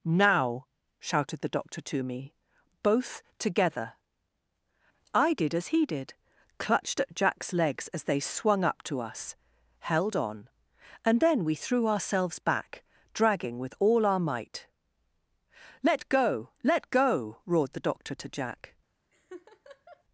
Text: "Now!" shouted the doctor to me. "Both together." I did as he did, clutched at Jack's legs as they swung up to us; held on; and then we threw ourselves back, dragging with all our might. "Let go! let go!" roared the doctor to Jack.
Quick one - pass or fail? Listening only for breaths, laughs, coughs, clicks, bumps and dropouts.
fail